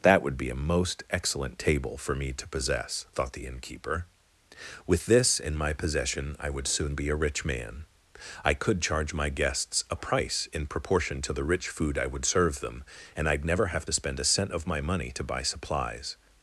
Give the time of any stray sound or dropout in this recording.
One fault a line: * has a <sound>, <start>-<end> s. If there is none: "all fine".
all fine